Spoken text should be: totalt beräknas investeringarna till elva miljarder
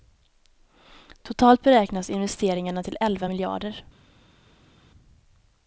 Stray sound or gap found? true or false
false